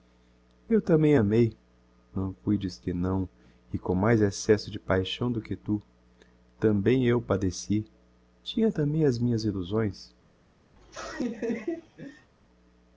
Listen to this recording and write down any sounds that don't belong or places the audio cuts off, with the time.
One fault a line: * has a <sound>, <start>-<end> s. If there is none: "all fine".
* has a laugh, 10.8-12.3 s